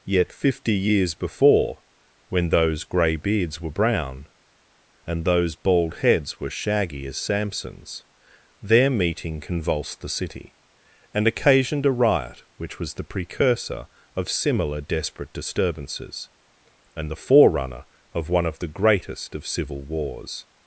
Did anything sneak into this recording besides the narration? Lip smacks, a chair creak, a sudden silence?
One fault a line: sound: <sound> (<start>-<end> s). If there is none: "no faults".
no faults